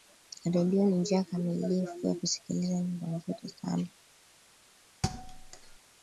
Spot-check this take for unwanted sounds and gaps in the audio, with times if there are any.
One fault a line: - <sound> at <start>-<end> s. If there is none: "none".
- thud at 5.0-5.8 s